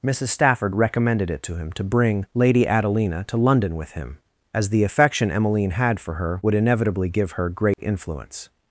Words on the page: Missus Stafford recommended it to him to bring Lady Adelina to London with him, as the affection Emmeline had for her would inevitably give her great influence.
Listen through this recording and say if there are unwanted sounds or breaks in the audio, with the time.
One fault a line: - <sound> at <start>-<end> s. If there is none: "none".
- dropout at 7.7-7.8 s